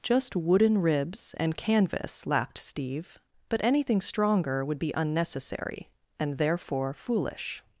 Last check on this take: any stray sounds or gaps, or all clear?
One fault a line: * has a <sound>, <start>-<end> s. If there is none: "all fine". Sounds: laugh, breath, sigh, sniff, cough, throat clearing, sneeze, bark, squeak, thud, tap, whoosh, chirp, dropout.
all fine